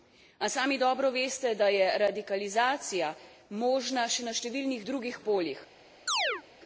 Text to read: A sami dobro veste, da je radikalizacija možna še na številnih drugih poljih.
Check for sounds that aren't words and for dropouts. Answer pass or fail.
fail